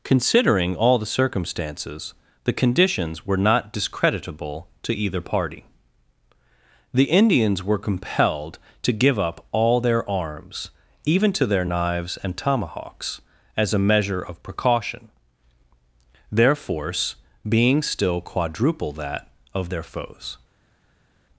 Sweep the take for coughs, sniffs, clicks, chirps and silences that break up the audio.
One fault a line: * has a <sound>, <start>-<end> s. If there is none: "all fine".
all fine